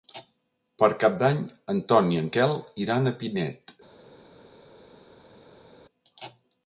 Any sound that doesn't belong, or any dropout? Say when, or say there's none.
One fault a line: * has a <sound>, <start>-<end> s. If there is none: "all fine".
all fine